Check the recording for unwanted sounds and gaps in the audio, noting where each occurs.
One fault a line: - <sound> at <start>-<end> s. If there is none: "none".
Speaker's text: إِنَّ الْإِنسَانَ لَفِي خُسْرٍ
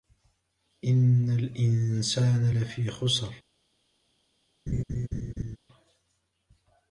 - laugh at 4.7-5.6 s